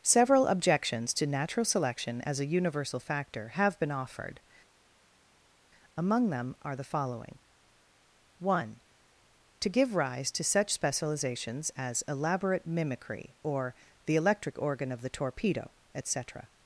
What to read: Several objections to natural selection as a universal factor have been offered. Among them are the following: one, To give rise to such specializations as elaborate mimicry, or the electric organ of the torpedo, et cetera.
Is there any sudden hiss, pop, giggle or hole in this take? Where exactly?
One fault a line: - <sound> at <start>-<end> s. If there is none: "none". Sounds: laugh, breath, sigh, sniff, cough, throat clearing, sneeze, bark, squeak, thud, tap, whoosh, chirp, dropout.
none